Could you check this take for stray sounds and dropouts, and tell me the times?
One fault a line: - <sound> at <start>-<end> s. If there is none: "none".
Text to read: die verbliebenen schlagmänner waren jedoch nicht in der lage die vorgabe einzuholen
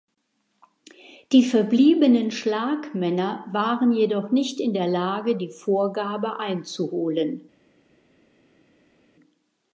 none